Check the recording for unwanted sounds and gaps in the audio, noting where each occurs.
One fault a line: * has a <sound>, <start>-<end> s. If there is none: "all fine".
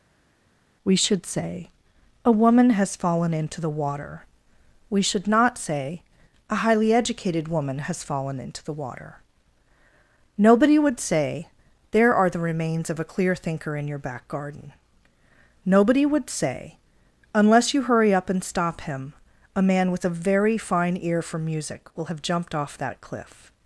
all fine